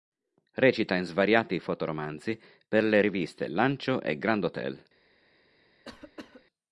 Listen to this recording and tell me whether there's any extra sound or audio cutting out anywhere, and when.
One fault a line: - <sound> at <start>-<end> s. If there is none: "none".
- cough at 5.8-6.5 s